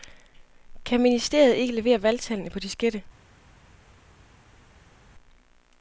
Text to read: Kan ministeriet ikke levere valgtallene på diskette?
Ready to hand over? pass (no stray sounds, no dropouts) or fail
pass